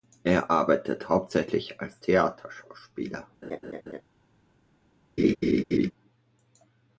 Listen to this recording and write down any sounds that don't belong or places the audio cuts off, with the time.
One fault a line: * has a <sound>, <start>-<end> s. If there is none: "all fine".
* has a laugh, 3.4-4.0 s
* has a laugh, 5.2-5.9 s